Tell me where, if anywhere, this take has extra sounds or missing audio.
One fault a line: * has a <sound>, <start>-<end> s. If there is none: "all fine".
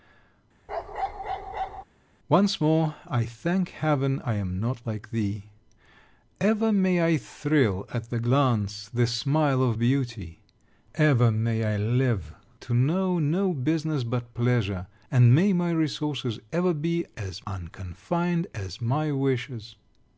* has a bark, 0.7-1.8 s